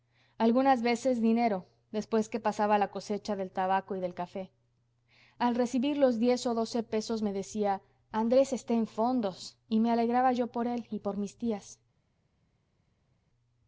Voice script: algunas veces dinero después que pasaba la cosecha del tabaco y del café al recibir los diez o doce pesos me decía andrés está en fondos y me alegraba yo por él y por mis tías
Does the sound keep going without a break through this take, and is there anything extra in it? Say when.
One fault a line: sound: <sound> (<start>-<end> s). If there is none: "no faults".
no faults